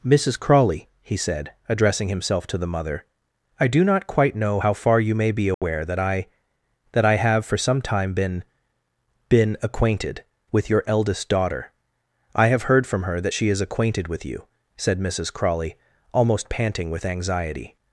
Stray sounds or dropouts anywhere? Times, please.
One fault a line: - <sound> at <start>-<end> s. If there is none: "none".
- dropout at 5.5-5.6 s